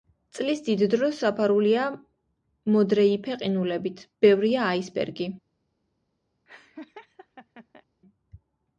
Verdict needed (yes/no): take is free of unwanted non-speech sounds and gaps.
no